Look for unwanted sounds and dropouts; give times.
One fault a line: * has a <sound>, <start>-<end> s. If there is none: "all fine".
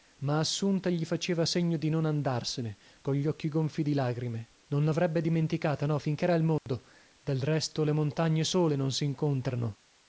* has a dropout, 6.6-6.7 s